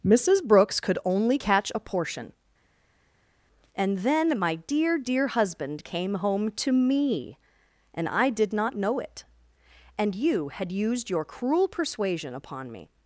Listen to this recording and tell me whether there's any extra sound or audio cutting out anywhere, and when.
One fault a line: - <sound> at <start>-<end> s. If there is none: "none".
none